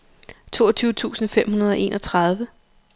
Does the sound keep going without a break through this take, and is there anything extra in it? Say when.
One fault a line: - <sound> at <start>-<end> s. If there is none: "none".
none